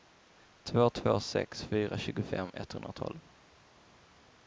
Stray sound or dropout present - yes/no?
no